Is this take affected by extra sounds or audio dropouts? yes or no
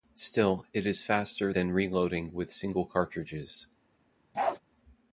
yes